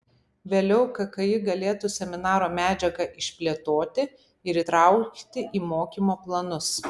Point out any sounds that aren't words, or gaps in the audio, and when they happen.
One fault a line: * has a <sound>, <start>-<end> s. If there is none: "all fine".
all fine